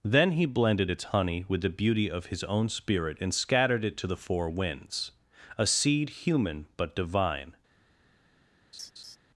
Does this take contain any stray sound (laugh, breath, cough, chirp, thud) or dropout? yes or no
yes